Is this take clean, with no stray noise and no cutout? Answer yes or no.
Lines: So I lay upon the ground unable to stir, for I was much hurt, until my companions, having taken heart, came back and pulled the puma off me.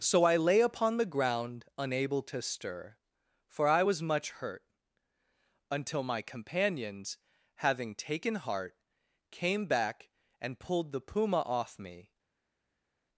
yes